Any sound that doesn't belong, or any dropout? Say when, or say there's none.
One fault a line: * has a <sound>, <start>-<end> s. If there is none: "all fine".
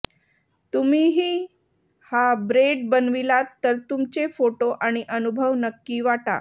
all fine